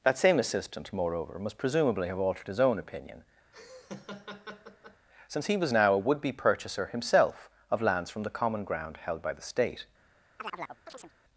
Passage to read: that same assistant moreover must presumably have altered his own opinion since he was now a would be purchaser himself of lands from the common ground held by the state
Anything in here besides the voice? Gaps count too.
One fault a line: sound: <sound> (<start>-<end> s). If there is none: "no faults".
sound: laugh (3.5-5.1 s)
sound: chirp (10.4-11.1 s)